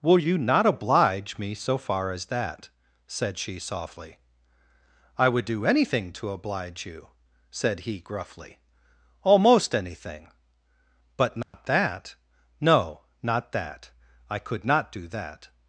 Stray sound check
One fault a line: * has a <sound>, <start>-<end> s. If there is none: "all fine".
* has a dropout, 11.4-11.5 s